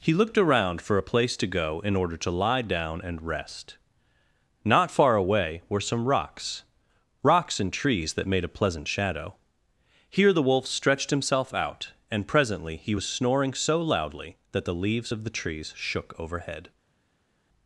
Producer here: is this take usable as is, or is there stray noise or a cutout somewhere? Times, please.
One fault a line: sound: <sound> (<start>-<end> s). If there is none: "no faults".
no faults